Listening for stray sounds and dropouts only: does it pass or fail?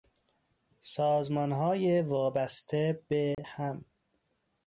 fail